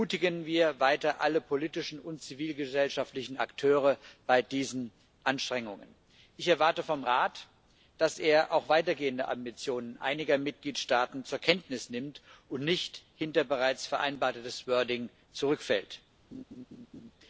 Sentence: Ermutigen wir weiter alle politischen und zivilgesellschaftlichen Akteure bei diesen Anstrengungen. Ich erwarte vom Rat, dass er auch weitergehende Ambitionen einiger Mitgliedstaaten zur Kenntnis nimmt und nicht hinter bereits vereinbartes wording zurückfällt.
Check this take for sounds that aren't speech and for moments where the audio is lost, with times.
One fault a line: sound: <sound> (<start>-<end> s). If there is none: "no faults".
sound: laugh (16.3-17.1 s)